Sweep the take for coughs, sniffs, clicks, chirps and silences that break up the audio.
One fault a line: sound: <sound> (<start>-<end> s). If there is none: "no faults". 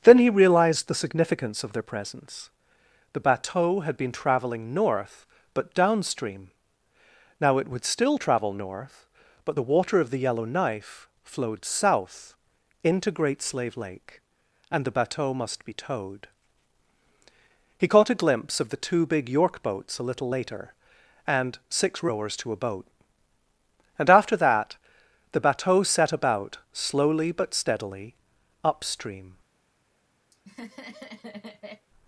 sound: laugh (30.3-31.9 s)